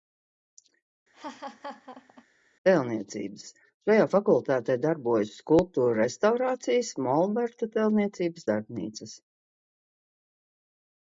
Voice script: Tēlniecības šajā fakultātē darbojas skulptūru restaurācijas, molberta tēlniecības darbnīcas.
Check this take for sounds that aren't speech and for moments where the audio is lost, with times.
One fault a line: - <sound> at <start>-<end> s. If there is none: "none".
- laugh at 1.1-2.3 s